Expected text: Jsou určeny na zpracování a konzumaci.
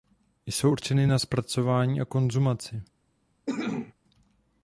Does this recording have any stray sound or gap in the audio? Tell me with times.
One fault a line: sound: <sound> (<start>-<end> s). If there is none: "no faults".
sound: cough (3.5-3.9 s)